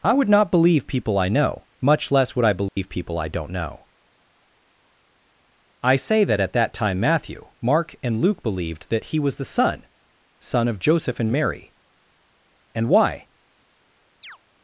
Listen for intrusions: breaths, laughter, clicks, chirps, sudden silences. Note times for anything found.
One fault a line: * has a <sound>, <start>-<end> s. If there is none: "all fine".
* has a dropout, 2.7-2.8 s
* has a chirp, 14.2-14.4 s